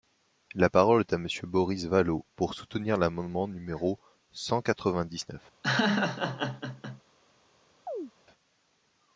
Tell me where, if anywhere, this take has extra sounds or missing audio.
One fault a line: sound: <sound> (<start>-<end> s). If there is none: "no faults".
sound: laugh (5.6-7.0 s)
sound: chirp (7.9-8.1 s)